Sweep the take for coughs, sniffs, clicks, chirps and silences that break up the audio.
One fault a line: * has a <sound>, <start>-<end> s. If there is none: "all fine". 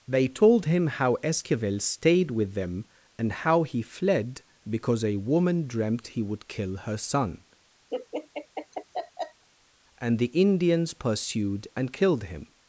* has a laugh, 7.9-9.4 s